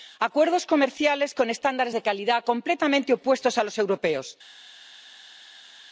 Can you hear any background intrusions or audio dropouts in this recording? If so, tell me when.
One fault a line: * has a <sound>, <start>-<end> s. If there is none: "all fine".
all fine